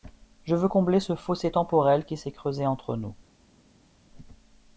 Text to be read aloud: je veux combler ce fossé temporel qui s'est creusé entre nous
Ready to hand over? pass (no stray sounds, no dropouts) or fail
pass